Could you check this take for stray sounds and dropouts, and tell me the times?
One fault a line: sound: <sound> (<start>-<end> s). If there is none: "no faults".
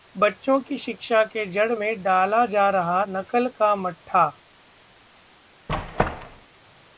sound: squeak (5.7-6.5 s)